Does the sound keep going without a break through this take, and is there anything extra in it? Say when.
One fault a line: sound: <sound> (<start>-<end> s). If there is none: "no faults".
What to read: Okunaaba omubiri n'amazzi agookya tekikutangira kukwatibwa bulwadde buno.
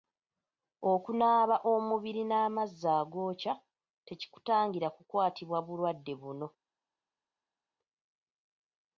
no faults